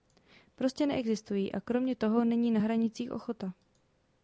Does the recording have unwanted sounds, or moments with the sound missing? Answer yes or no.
no